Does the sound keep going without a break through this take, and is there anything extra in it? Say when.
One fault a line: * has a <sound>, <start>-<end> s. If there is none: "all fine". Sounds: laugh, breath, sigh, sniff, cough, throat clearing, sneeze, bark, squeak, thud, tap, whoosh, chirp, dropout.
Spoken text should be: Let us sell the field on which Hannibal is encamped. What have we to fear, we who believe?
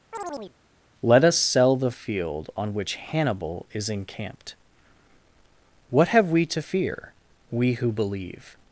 * has a chirp, 0.1-0.6 s